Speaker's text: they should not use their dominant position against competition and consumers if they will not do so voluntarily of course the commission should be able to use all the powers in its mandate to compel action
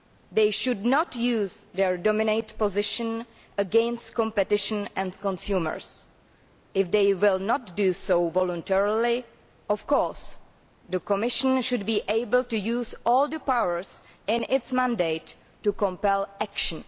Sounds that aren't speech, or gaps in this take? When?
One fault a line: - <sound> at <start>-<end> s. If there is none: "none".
none